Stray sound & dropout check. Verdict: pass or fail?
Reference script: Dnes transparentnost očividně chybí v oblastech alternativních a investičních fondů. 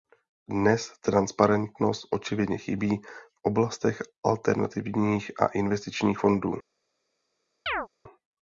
fail